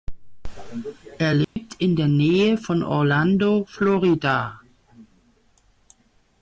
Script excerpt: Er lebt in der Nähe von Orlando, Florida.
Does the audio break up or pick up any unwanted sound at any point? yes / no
yes